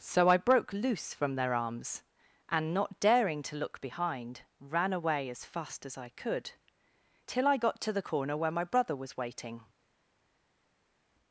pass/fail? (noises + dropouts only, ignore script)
pass